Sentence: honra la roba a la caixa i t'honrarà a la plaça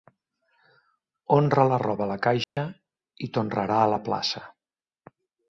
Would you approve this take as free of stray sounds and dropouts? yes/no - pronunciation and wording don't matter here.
no